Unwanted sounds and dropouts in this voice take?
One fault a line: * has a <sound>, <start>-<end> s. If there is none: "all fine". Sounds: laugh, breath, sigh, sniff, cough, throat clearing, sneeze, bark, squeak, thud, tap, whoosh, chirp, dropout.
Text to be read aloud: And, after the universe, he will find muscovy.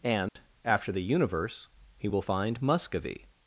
* has a dropout, 0.3-0.4 s